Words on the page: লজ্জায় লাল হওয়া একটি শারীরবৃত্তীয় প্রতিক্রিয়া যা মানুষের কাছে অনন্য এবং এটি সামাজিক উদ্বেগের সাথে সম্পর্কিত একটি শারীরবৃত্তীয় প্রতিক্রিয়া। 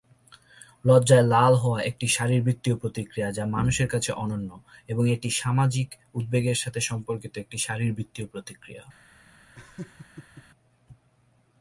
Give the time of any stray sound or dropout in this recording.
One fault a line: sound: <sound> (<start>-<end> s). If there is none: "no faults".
sound: laugh (9.5-10.4 s)